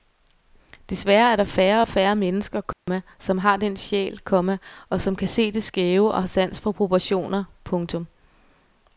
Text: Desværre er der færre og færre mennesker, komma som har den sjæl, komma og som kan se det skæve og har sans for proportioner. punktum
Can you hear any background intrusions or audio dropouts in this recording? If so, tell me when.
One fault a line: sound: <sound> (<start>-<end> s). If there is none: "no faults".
sound: dropout (2.7-2.9 s)